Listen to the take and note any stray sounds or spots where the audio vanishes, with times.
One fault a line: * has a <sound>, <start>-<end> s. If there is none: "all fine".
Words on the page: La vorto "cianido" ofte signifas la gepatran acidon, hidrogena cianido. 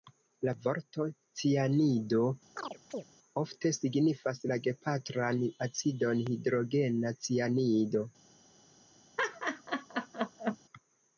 * has a chirp, 2.6-3.0 s
* has a laugh, 9.2-10.6 s